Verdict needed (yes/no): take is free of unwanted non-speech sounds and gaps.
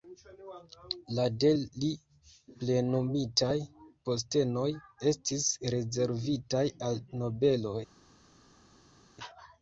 yes